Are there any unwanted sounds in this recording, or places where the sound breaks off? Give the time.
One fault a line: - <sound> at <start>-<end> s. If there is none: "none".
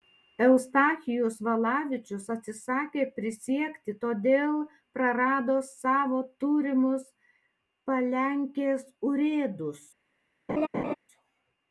- laugh at 10.5-11.0 s